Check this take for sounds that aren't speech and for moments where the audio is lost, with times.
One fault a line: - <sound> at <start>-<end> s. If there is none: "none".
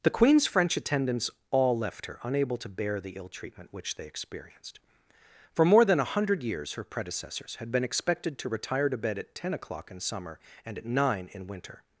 none